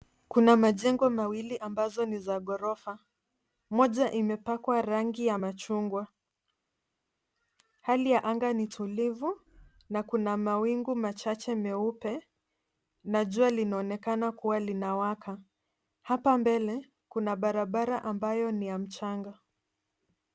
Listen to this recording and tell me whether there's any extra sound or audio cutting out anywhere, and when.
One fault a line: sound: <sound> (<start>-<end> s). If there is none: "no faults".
no faults